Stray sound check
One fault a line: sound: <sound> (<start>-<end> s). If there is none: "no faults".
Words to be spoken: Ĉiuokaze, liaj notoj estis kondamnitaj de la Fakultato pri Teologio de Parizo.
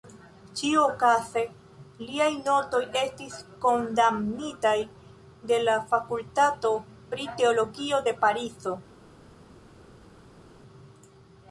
no faults